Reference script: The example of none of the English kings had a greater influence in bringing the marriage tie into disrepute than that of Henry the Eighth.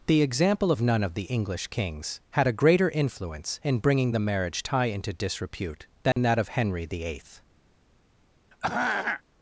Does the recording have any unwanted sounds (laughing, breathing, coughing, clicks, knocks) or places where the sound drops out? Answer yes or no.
yes